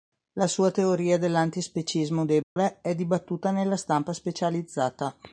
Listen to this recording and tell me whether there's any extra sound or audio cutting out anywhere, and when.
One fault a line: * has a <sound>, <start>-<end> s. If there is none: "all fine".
* has a dropout, 2.4-2.6 s